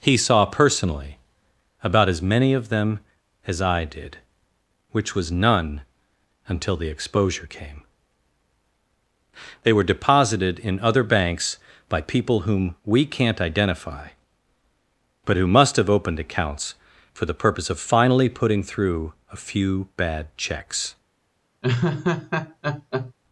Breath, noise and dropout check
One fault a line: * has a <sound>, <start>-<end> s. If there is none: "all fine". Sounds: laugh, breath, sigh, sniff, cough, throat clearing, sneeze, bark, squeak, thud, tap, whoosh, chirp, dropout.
* has a laugh, 21.6-23.1 s